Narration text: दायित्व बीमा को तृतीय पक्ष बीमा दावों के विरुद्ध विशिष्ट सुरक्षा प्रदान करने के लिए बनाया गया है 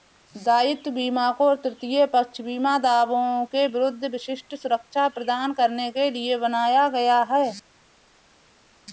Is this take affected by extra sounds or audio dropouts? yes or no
no